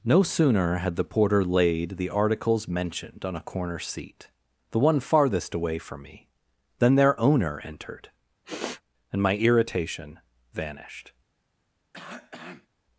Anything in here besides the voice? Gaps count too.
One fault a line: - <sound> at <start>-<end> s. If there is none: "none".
- sniff at 8.4-8.8 s
- cough at 11.9-12.7 s